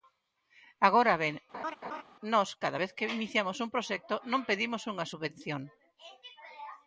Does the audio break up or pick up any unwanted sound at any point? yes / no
yes